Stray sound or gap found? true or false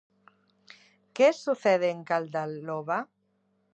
false